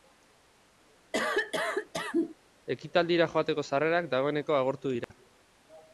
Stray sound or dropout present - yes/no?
yes